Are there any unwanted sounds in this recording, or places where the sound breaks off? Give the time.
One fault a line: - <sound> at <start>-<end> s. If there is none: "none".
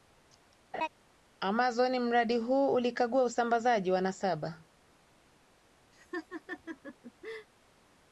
- laugh at 0.7-0.9 s
- laugh at 5.9-7.5 s